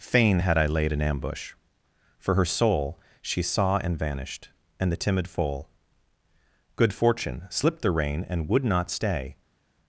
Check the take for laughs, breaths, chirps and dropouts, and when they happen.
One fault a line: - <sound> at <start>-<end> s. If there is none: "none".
none